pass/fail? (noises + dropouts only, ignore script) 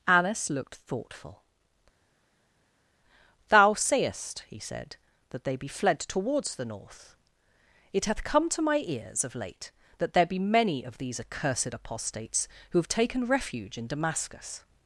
pass